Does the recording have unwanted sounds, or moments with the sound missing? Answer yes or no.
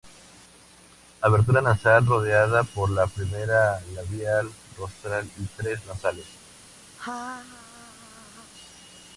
yes